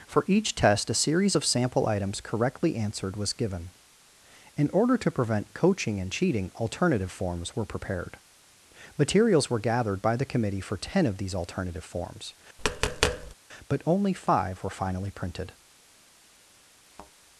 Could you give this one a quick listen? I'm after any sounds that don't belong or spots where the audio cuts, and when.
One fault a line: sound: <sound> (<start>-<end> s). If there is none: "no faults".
sound: tap (12.6-13.3 s)
sound: thud (16.9-17.1 s)